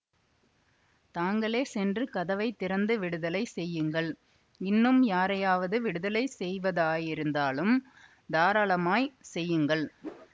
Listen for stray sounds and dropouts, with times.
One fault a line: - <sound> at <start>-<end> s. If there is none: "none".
- whoosh at 10.0-10.3 s